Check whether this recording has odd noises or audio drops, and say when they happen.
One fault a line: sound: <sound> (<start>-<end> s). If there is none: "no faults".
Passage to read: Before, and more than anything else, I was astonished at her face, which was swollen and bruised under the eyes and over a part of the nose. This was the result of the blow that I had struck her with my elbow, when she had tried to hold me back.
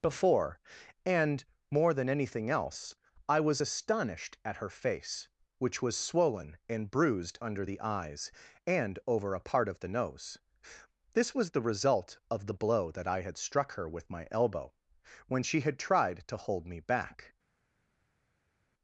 no faults